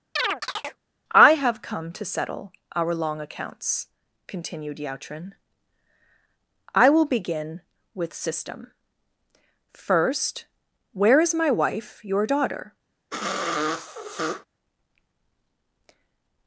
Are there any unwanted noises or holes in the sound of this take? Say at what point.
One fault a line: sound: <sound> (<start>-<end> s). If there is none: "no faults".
sound: chirp (0.2-0.8 s)
sound: sniff (13.1-14.5 s)